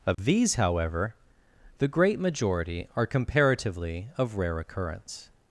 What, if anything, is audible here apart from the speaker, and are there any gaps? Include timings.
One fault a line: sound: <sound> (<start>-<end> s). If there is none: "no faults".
sound: dropout (0.1-0.2 s)